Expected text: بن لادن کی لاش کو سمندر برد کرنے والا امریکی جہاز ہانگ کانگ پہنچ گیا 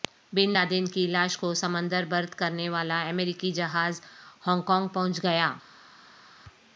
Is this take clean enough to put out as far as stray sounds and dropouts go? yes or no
yes